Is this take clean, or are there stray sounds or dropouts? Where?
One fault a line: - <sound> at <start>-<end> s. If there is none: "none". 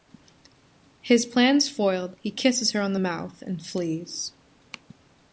none